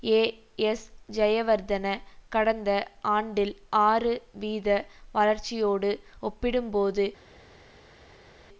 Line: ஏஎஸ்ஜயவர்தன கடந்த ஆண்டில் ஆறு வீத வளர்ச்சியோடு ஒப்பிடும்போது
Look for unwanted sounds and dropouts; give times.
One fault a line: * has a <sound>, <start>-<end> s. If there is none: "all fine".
all fine